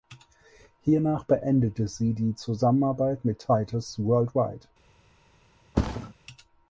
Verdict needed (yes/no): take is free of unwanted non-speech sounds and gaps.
no